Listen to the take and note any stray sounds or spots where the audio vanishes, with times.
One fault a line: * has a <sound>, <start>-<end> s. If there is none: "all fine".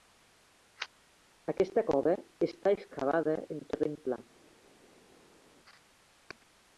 all fine